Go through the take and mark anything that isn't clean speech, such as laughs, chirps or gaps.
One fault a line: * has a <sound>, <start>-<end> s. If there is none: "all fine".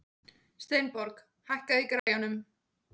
* has a dropout, 2.0-2.1 s